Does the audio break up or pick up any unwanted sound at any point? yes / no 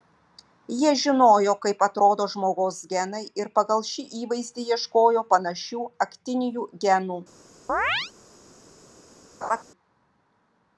yes